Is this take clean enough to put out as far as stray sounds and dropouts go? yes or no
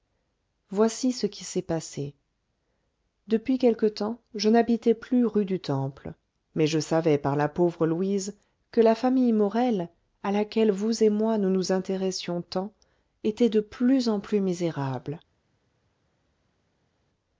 yes